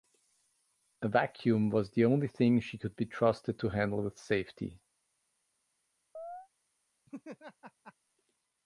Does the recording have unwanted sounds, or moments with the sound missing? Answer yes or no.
yes